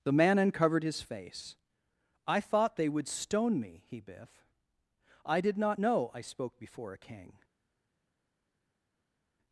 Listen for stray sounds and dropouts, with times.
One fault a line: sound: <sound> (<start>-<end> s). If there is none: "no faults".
no faults